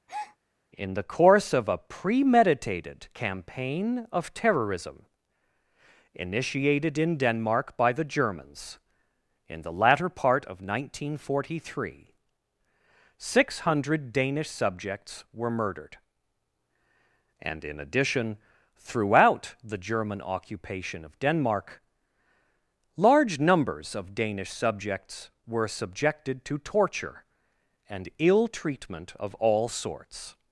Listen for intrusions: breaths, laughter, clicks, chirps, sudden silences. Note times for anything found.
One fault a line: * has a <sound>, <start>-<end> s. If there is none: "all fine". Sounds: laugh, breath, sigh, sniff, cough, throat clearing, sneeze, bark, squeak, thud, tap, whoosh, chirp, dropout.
* has a breath, 0.1-0.4 s